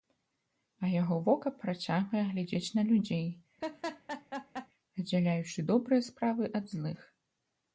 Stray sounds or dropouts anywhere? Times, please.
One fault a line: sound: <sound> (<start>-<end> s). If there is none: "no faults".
sound: laugh (3.6-4.7 s)